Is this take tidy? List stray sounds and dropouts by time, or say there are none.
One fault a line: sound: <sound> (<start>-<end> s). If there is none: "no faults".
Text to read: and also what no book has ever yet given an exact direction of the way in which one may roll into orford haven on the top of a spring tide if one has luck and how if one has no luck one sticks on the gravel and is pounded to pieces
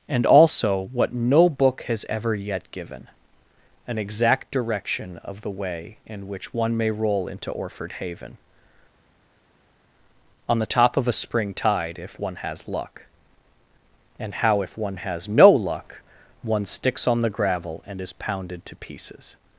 no faults